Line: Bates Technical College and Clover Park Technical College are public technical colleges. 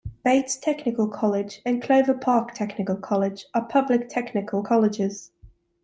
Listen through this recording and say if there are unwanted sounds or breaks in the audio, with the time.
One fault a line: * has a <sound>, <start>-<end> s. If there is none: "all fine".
all fine